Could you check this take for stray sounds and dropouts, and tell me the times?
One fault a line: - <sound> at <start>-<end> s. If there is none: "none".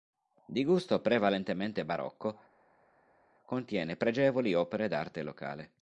none